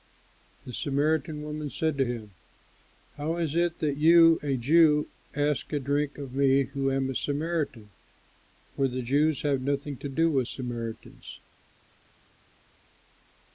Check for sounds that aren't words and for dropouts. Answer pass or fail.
pass